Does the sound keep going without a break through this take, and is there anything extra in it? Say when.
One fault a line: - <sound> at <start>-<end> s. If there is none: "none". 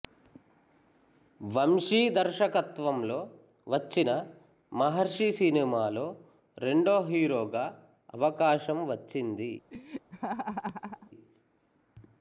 - laugh at 9.7-11.1 s